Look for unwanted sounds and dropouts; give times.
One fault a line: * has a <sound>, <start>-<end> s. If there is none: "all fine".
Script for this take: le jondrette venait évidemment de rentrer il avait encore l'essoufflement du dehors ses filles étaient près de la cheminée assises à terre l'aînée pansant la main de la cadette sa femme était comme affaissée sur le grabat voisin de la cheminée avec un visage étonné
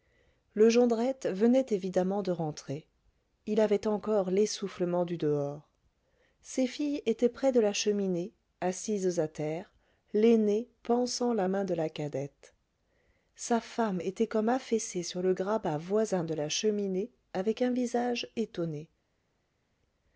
all fine